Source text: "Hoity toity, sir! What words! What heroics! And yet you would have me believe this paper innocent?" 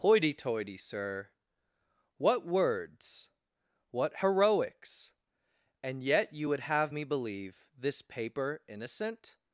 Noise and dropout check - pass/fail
pass